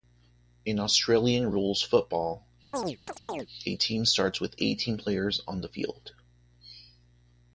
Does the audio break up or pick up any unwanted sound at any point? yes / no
yes